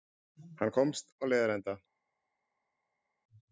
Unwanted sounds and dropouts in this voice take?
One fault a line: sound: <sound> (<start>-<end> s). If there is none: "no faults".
no faults